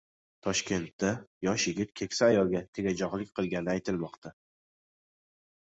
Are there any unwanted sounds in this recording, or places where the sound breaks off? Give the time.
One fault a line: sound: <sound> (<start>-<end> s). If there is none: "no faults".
no faults